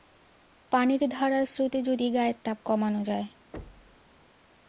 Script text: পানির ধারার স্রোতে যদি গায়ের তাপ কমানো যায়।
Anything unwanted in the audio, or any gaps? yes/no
yes